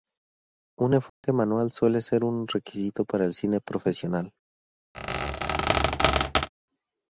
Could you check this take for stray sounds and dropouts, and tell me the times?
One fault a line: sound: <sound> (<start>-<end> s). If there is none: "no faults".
sound: dropout (1.1-1.2 s)
sound: squeak (4.9-6.5 s)